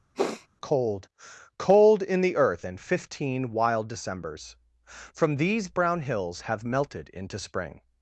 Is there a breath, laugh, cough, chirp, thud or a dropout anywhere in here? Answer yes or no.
yes